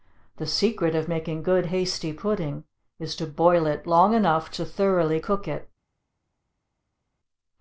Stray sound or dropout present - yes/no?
no